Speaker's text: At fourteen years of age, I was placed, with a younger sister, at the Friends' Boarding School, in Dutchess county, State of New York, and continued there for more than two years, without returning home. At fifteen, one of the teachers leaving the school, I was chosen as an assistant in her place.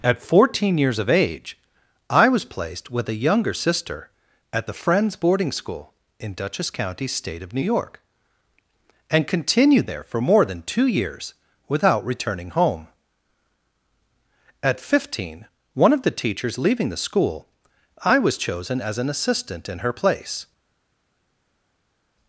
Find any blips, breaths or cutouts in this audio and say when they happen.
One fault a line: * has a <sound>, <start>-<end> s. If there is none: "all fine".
all fine